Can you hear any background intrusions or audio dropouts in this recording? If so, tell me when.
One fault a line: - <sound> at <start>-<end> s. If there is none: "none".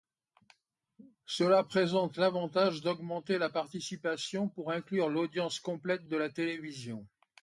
none